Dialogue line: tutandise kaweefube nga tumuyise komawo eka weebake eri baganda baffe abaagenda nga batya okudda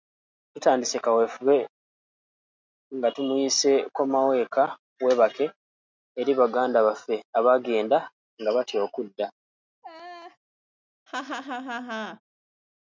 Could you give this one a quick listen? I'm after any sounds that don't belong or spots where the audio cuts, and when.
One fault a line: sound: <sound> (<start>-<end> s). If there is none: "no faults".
sound: laugh (9.8-10.4 s)
sound: laugh (11.1-12.2 s)